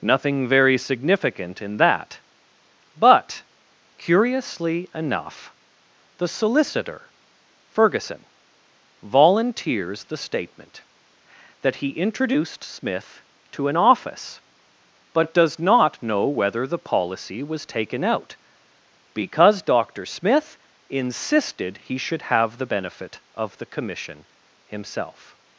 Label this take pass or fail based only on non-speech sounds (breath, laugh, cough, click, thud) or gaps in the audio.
pass